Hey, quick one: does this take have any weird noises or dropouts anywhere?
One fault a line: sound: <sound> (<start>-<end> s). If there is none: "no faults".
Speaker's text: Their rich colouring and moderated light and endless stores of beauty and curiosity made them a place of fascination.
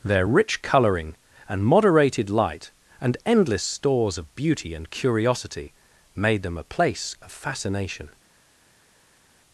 no faults